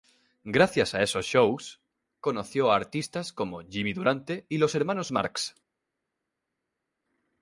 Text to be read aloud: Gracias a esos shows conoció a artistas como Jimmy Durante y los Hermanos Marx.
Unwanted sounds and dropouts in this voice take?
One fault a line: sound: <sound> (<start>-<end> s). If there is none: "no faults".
no faults